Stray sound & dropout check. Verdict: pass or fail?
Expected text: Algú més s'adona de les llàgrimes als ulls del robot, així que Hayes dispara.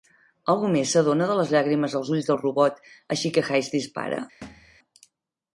fail